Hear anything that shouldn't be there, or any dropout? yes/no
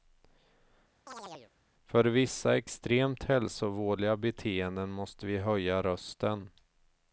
yes